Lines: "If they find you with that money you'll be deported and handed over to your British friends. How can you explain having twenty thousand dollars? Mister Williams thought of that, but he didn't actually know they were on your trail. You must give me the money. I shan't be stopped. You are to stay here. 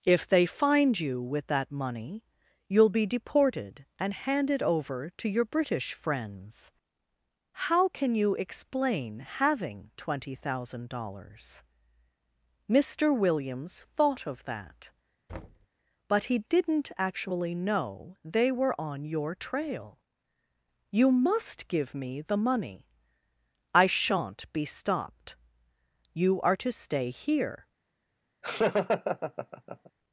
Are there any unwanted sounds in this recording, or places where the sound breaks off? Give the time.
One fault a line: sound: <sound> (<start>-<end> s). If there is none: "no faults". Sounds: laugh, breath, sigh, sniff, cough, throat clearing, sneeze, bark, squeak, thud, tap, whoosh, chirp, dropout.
sound: thud (15.3-15.7 s)
sound: laugh (28.4-29.9 s)